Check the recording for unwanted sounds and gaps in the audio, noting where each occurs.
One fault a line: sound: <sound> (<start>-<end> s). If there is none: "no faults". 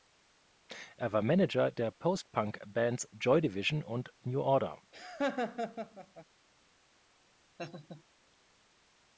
sound: laugh (4.9-6.3 s)
sound: laugh (7.6-8.0 s)